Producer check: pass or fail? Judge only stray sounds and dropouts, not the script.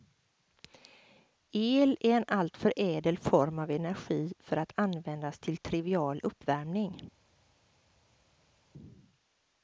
pass